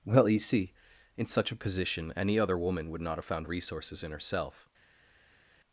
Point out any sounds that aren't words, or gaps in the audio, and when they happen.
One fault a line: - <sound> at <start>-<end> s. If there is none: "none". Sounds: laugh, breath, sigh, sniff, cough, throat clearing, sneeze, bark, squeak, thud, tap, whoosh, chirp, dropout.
none